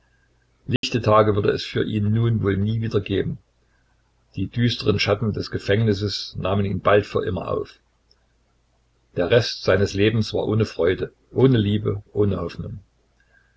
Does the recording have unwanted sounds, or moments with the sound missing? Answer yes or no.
yes